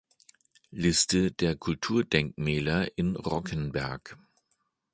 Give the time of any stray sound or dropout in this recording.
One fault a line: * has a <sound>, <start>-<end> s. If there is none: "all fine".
all fine